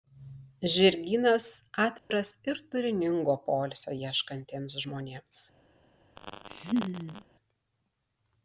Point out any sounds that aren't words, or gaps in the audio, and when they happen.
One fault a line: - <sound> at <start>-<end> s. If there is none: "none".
- dropout at 2.0-2.1 s
- laugh at 6.2-7.3 s